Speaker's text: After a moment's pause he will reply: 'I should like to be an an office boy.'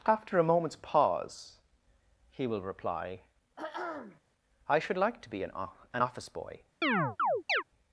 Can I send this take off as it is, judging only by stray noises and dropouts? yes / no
no